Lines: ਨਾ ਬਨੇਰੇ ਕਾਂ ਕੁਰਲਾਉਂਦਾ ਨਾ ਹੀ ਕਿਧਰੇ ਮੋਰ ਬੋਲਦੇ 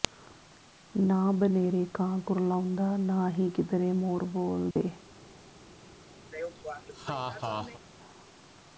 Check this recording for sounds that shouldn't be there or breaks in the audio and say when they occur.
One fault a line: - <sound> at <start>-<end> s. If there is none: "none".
- dropout at 4.7-4.8 s
- laugh at 6.3-7.8 s